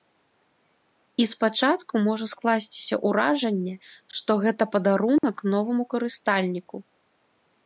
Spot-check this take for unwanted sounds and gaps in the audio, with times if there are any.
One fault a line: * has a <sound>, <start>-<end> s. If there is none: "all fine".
* has a dropout, 5.2-5.2 s